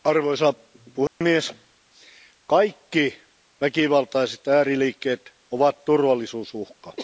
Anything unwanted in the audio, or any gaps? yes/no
yes